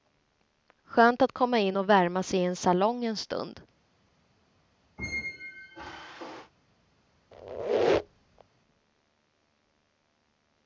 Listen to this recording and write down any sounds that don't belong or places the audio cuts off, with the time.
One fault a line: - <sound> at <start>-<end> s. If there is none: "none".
- squeak at 5.0-6.5 s
- squeak at 7.3-8.4 s